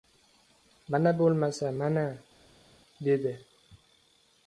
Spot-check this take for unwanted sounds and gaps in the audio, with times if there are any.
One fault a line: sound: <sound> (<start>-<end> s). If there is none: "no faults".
no faults